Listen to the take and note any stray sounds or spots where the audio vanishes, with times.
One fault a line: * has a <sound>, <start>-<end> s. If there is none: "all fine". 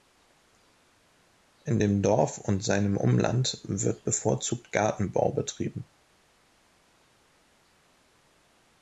all fine